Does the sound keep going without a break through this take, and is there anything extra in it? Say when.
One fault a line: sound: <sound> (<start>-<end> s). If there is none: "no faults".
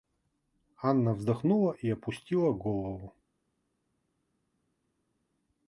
no faults